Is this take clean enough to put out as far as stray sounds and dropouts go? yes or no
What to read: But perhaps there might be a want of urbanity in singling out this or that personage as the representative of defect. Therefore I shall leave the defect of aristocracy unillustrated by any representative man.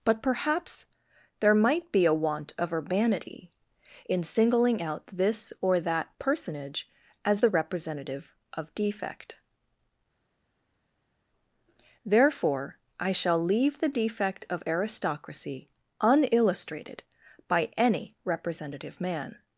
yes